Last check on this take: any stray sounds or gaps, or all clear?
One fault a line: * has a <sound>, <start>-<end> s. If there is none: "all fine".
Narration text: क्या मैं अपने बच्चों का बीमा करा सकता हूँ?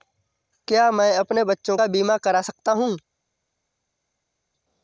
all fine